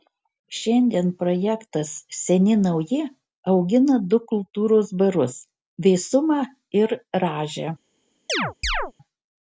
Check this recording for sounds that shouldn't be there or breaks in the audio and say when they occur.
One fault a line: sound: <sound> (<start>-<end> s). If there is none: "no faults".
sound: chirp (8.3-8.9 s)